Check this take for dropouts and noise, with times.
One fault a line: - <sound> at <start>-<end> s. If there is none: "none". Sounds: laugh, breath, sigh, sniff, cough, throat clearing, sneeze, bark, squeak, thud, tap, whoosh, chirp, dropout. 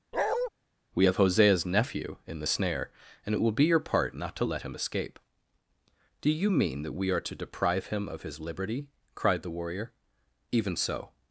- bark at 0.1-0.5 s